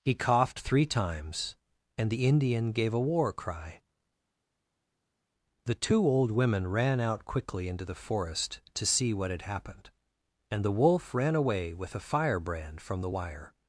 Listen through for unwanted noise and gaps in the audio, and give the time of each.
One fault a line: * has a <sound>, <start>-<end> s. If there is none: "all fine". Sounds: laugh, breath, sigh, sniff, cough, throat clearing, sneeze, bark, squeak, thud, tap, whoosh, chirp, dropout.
all fine